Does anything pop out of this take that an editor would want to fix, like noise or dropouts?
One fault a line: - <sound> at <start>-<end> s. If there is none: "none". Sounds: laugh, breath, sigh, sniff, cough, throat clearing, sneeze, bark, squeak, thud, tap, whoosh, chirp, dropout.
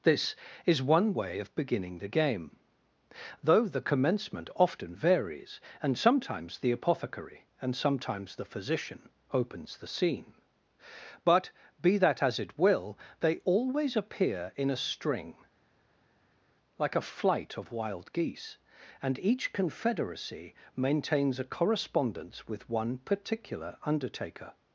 none